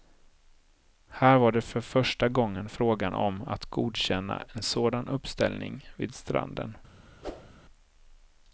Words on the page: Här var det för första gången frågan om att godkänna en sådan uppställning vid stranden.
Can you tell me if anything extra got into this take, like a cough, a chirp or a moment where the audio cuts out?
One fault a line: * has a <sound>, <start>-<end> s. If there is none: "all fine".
* has a whoosh, 7.2-7.6 s